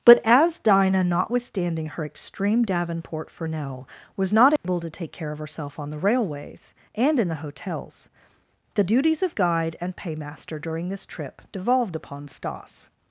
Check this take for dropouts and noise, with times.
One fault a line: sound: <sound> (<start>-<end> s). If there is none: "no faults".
sound: dropout (4.6-4.6 s)